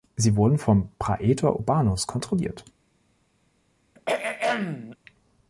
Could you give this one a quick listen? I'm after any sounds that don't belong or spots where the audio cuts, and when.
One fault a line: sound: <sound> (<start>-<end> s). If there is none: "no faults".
sound: throat clearing (4.0-5.0 s)